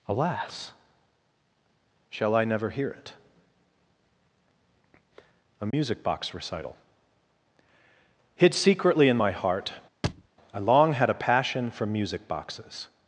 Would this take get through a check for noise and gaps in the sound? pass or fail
fail